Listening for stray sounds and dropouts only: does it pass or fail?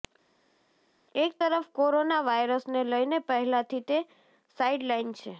pass